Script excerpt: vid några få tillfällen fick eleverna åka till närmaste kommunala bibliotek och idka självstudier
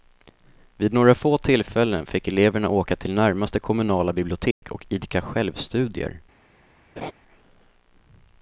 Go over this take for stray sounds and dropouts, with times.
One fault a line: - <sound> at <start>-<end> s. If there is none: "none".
- dropout at 4.5-4.6 s
- laugh at 7.0-7.1 s